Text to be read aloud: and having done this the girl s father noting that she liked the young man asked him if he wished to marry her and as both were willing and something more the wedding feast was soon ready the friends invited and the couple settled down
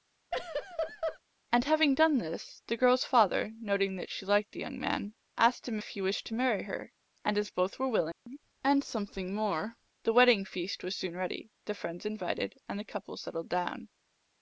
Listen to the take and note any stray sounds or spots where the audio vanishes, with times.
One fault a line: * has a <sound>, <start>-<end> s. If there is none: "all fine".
* has a laugh, 0.3-1.2 s
* has a dropout, 8.1-8.3 s